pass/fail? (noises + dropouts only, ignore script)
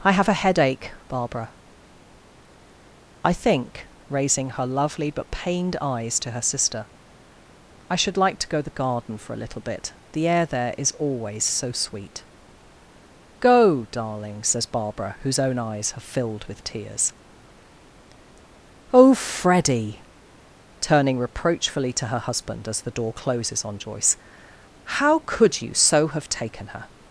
pass